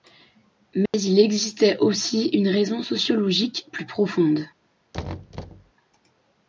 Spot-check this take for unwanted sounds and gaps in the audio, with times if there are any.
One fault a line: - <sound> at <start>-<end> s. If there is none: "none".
- dropout at 0.9-0.9 s
- thud at 4.9-5.7 s